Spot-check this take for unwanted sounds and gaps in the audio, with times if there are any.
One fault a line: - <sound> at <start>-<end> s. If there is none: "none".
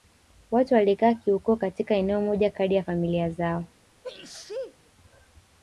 - sneeze at 4.0-4.8 s